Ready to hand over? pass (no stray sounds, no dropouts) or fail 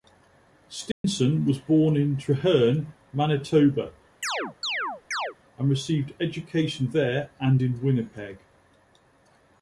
fail